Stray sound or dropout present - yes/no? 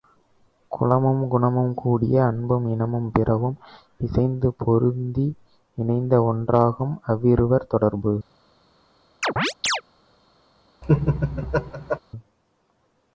yes